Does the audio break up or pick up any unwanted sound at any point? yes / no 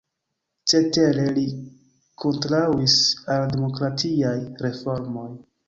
no